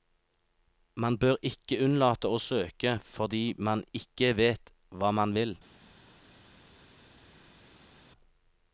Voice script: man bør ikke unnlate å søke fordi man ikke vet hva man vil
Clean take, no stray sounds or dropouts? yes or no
yes